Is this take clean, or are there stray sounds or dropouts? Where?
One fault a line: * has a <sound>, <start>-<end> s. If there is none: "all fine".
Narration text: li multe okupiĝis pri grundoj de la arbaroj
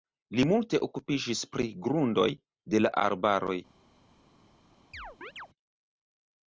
* has a chirp, 4.9-5.5 s